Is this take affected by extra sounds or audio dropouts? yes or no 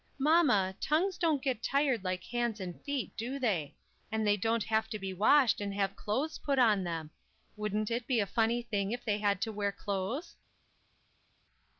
no